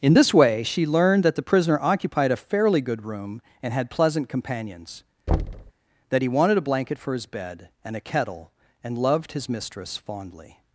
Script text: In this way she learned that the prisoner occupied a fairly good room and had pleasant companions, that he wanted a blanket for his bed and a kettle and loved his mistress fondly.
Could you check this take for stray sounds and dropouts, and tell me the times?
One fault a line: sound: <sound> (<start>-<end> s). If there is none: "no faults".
sound: thud (5.3-5.7 s)